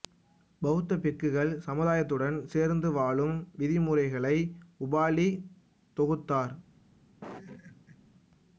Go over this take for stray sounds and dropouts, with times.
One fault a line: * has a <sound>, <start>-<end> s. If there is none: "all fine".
* has a laugh, 7.2-8.0 s